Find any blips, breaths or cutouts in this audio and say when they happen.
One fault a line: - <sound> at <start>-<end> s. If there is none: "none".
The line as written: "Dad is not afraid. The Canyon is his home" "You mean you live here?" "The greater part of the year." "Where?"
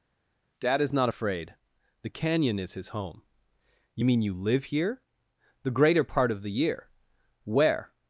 none